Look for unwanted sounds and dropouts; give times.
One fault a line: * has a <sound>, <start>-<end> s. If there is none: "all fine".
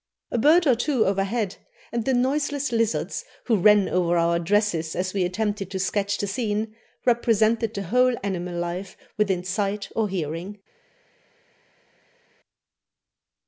all fine